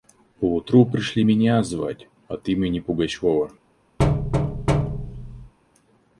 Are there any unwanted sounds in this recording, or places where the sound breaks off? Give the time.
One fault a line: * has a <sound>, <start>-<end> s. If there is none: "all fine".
* has a thud, 4.0-5.5 s